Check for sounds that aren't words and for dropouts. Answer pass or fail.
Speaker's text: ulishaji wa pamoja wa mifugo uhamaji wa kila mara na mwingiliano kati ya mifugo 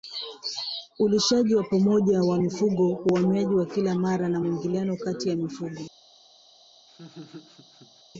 fail